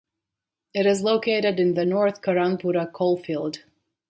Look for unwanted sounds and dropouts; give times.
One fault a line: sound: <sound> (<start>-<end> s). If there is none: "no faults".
no faults